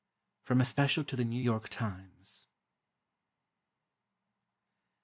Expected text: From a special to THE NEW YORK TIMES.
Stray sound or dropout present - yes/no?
no